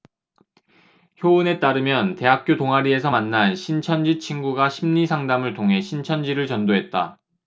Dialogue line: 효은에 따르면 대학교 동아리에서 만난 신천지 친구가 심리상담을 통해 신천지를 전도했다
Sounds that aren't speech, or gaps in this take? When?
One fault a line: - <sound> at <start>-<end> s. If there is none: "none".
none